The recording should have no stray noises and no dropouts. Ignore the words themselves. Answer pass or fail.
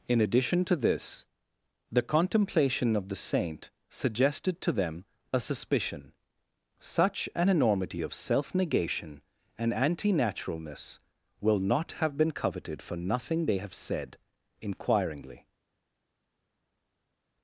pass